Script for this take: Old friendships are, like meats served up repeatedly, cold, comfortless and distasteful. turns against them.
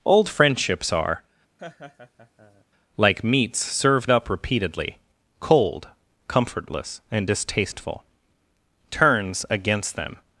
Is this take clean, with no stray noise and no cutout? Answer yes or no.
no